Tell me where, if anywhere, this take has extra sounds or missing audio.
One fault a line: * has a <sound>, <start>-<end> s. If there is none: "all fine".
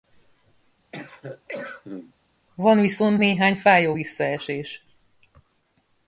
* has a cough, 0.9-2.1 s